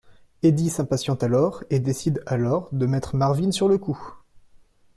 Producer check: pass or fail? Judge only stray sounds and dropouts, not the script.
pass